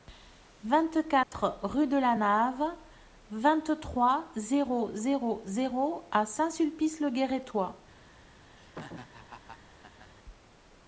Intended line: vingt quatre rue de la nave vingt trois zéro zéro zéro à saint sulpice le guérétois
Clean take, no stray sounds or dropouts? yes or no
no